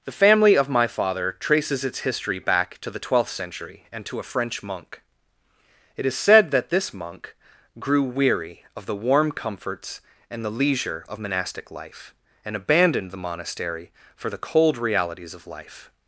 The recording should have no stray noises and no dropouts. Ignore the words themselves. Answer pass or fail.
pass